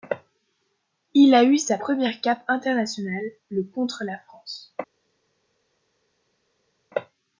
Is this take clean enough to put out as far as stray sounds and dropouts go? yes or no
yes